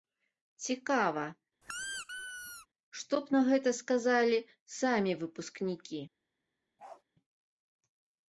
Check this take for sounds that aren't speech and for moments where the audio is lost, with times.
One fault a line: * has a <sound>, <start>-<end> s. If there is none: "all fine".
* has a squeak, 1.6-2.7 s
* has a bark, 6.8-7.0 s